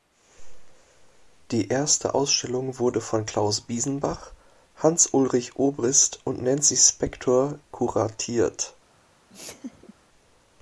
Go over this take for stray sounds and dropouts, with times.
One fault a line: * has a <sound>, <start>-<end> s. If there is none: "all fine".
* has a laugh, 9.3-9.9 s